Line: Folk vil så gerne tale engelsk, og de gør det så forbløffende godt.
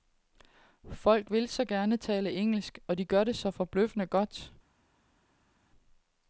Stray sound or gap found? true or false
false